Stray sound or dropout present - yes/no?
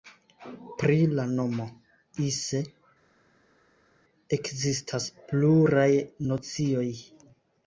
no